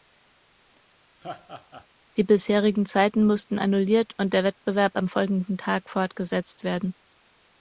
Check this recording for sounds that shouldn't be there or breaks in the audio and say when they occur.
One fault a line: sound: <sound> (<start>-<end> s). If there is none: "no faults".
sound: laugh (1.2-1.9 s)